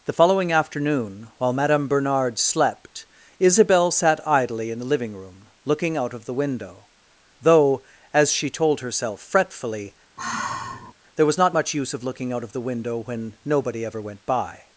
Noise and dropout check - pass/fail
fail